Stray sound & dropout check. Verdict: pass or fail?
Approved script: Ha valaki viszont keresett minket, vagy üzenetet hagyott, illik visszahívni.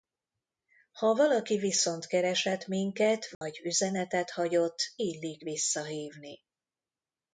fail